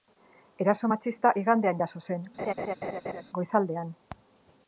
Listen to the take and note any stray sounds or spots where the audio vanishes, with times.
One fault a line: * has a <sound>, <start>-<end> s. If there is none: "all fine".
* has a laugh, 2.4-3.2 s